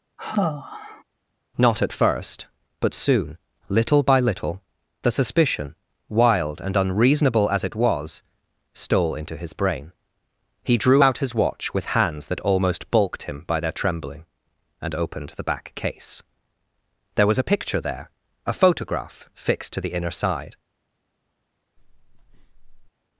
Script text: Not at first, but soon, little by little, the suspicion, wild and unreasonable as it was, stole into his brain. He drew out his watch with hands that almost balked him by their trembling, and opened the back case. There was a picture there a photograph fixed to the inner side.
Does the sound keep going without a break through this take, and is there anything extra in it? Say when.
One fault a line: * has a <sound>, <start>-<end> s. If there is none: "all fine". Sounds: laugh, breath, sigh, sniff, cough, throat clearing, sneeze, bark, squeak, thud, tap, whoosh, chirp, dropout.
* has a sigh, 0.2-1.0 s
* has a breath, 21.8-22.9 s